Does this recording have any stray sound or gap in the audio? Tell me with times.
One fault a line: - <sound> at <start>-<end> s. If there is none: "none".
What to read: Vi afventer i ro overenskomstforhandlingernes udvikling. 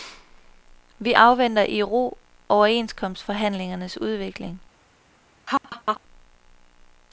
- laugh at 5.5-6.0 s